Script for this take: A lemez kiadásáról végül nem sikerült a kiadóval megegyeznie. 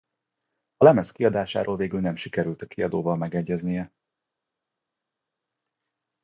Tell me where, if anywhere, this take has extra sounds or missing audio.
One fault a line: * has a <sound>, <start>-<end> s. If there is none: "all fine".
all fine